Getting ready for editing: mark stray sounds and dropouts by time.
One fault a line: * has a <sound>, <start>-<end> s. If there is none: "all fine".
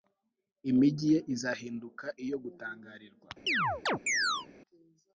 * has a chirp, 3.5-4.5 s